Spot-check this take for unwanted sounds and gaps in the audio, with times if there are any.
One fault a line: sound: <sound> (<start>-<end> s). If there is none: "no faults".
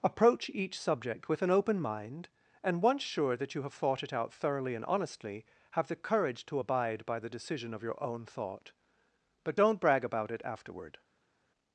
no faults